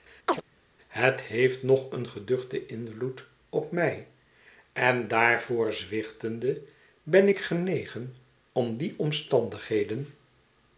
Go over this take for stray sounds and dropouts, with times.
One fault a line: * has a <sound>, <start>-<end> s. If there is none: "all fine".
* has a chirp, 0.3-0.4 s